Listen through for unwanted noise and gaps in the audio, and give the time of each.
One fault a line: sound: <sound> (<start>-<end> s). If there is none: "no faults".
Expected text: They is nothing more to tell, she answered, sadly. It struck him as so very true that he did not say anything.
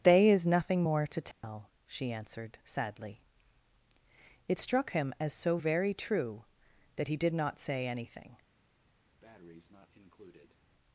sound: dropout (1.3-1.4 s)
sound: breath (9.2-10.6 s)